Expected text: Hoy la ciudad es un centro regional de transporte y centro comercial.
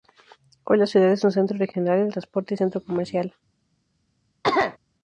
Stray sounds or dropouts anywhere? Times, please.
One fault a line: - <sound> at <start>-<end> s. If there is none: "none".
- cough at 4.4-4.8 s